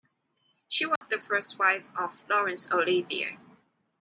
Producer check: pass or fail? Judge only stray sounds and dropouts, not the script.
fail